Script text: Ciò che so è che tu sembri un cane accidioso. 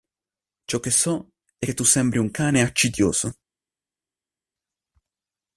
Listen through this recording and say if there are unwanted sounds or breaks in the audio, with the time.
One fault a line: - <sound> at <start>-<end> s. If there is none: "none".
none